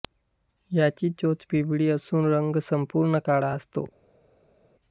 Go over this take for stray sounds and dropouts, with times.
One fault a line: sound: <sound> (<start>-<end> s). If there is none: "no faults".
no faults